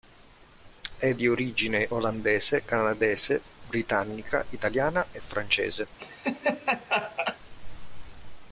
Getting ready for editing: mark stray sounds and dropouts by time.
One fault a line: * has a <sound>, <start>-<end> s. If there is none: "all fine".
* has a laugh, 6.0-7.4 s